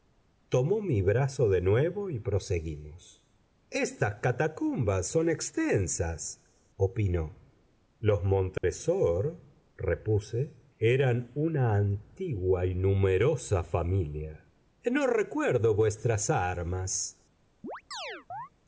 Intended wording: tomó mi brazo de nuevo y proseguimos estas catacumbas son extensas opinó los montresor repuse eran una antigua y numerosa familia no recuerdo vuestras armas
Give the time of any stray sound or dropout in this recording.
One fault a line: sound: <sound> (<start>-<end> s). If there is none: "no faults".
sound: dropout (8.6-8.6 s)
sound: chirp (17.6-18.5 s)